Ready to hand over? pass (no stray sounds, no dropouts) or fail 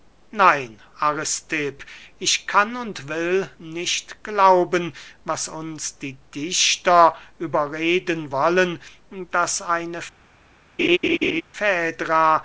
fail